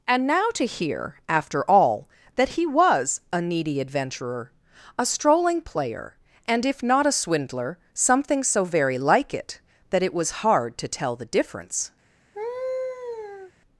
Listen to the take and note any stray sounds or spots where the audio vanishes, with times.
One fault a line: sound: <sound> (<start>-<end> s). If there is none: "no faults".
sound: laugh (12.3-13.5 s)